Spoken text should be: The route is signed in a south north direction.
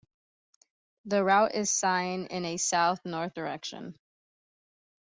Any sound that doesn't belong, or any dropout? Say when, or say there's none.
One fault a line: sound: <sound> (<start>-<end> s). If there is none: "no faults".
no faults